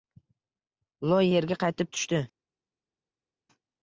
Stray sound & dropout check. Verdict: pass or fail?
pass